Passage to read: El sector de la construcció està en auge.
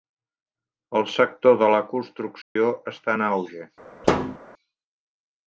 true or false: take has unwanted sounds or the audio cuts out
true